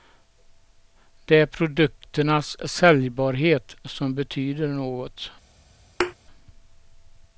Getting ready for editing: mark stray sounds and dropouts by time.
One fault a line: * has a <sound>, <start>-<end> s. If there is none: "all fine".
* has a thud, 6.0-6.1 s